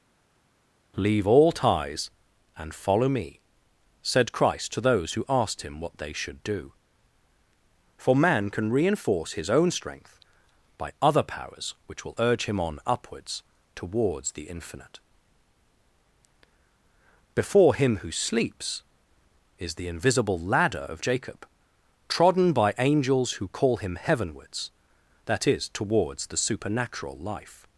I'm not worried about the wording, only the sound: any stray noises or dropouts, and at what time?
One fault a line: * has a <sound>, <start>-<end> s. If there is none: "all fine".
all fine